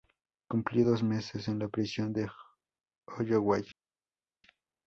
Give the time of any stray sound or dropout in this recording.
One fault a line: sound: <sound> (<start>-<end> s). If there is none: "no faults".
no faults